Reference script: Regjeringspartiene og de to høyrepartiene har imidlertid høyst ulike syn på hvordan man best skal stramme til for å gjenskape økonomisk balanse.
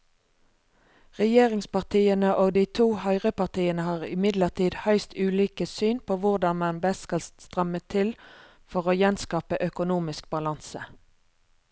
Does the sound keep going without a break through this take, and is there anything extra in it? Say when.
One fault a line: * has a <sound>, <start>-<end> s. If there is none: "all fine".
all fine